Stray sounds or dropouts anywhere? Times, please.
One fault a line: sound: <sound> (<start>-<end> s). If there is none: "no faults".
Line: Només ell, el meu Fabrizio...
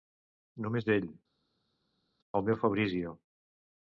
no faults